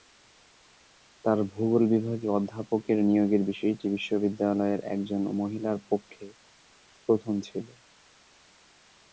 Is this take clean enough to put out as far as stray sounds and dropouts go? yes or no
yes